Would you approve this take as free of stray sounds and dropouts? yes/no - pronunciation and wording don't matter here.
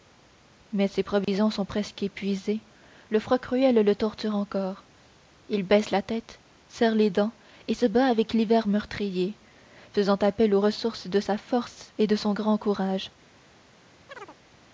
no